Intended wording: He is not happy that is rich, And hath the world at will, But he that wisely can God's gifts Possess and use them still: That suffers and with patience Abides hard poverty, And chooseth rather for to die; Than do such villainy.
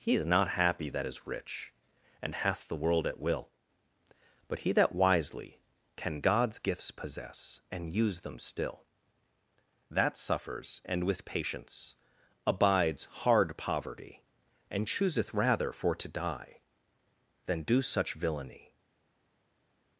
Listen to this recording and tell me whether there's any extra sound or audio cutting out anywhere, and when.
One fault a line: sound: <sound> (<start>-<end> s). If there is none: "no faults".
no faults